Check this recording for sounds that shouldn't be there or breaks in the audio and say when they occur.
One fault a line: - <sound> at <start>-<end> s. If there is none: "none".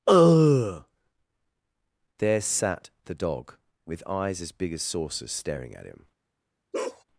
- bark at 6.7-7.0 s